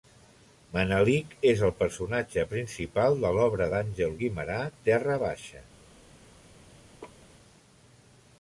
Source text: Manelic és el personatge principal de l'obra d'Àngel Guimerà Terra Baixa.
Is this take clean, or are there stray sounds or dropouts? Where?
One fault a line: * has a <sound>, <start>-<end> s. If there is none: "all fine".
* has a laugh, 7.0-7.3 s